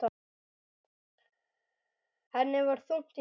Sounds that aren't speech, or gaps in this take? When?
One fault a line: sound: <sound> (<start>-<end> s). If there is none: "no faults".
no faults